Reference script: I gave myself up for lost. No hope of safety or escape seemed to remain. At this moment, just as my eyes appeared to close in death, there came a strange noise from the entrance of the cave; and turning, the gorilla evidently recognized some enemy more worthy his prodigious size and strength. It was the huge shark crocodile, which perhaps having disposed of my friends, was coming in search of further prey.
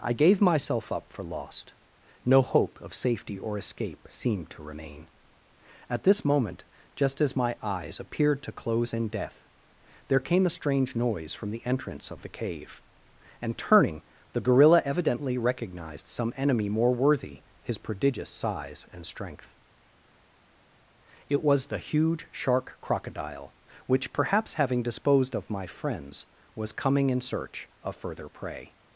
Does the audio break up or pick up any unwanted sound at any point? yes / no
no